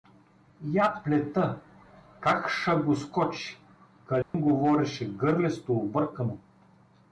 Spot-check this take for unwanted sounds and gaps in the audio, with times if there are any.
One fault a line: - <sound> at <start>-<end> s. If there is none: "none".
- dropout at 4.2-4.3 s